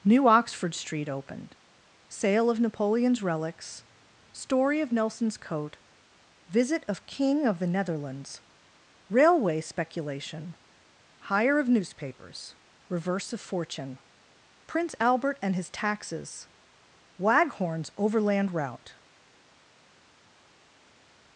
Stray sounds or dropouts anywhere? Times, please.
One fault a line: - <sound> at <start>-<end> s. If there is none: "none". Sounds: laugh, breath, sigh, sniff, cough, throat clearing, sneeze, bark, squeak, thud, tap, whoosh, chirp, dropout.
none